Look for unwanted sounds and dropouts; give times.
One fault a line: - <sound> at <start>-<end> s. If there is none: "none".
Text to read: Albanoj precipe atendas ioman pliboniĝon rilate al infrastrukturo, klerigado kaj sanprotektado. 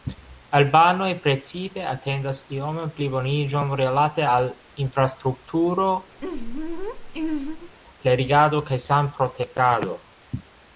- laugh at 6.2-7.7 s